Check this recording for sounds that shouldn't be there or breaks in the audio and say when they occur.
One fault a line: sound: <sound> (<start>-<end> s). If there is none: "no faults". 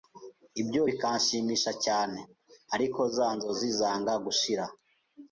no faults